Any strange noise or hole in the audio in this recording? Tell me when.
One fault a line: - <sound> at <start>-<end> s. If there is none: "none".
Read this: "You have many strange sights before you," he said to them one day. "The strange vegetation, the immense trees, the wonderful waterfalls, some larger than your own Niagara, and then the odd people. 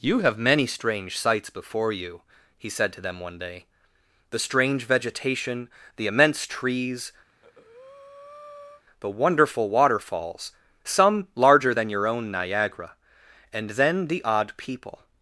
- breath at 7.3-8.8 s